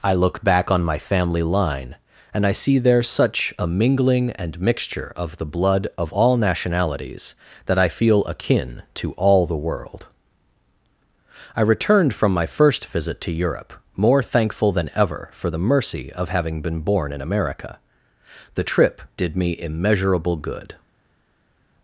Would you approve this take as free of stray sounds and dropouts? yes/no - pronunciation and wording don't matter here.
yes